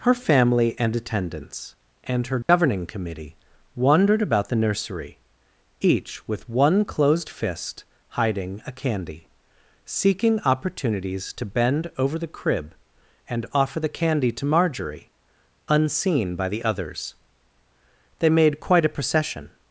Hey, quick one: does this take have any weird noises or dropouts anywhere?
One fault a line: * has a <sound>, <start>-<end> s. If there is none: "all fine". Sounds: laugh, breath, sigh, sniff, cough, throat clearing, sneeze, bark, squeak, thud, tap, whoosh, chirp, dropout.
* has a dropout, 2.4-2.5 s